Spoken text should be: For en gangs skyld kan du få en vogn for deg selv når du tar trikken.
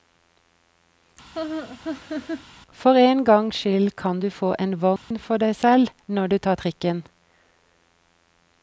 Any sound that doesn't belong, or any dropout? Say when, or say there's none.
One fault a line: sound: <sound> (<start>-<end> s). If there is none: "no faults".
sound: laugh (1.3-2.5 s)
sound: dropout (5.0-5.1 s)